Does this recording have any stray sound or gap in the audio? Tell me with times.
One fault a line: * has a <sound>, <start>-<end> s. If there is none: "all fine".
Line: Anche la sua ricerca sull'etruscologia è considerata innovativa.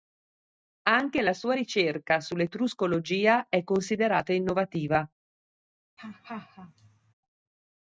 * has a laugh, 6.0-7.1 s